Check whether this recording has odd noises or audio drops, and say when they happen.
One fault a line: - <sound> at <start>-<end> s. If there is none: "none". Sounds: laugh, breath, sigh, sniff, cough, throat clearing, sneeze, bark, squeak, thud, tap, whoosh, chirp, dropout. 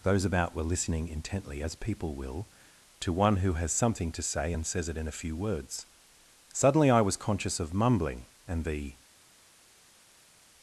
none